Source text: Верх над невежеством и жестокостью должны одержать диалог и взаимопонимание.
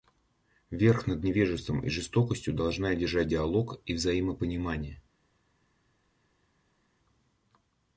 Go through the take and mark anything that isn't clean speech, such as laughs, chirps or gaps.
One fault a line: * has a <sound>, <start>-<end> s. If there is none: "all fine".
all fine